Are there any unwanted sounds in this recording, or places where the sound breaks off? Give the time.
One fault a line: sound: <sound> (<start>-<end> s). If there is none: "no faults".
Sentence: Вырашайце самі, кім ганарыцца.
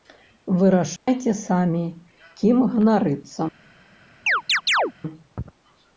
sound: dropout (1.0-1.1 s)
sound: chirp (4.3-4.9 s)